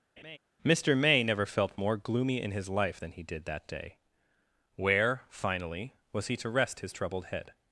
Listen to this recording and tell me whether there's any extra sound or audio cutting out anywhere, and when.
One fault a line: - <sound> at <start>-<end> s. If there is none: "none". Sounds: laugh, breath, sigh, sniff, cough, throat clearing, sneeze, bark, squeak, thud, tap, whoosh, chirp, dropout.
- laugh at 0.2-0.4 s